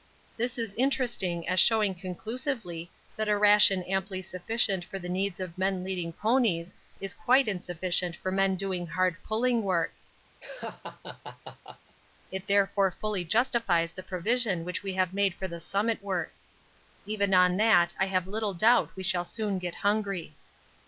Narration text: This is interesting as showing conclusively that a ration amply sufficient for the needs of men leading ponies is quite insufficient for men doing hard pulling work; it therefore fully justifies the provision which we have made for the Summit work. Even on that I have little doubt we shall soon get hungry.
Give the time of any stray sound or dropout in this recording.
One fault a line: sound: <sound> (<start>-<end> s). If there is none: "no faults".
sound: laugh (10.4-12.0 s)